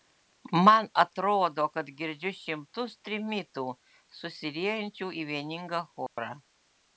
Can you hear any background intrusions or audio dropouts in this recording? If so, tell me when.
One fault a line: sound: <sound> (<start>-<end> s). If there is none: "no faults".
sound: dropout (6.1-6.2 s)